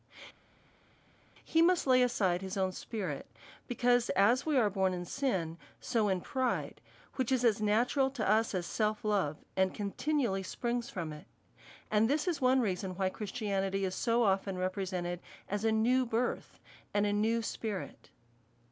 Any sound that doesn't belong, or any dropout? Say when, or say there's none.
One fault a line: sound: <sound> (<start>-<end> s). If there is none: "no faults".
no faults